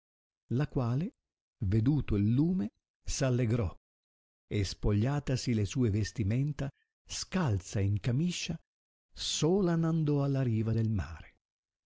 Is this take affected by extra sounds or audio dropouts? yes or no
no